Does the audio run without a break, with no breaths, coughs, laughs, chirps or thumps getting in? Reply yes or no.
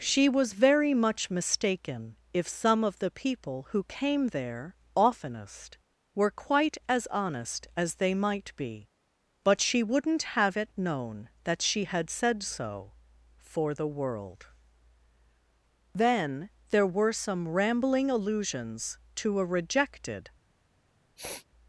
no